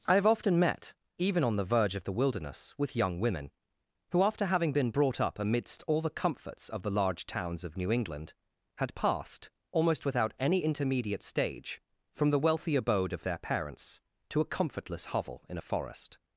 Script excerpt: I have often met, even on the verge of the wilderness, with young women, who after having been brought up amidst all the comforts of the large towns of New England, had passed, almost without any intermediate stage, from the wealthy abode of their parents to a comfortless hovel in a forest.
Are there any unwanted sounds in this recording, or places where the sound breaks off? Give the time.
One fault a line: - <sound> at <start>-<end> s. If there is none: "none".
none